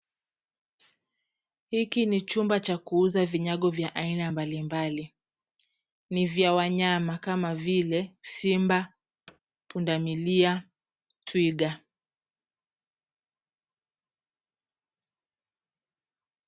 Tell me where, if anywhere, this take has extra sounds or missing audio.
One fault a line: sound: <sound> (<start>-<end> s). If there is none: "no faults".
sound: thud (9.3-9.4 s)